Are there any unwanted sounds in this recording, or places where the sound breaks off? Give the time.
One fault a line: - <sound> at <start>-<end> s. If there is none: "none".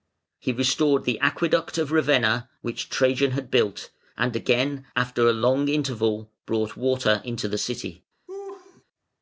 - laugh at 8.3-8.8 s